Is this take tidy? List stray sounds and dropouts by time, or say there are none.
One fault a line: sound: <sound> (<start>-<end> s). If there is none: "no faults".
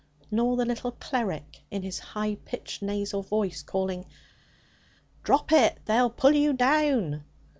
no faults